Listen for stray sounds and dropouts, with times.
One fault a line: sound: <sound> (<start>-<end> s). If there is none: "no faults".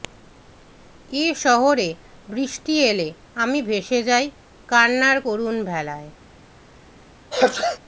sound: sneeze (7.3-7.8 s)